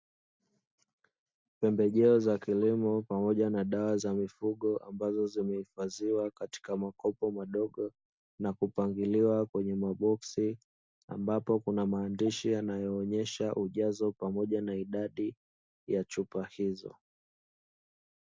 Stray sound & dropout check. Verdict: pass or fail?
pass